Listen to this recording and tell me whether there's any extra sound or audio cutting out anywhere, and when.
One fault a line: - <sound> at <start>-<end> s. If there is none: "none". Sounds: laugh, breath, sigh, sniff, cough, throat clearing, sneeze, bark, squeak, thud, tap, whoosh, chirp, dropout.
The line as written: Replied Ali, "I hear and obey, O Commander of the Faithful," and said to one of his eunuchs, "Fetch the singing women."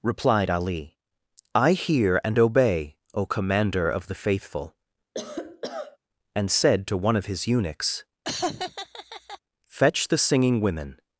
- cough at 5.1-6.0 s
- laugh at 8.2-9.4 s